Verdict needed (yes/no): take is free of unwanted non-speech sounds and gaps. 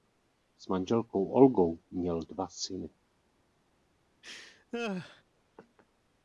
no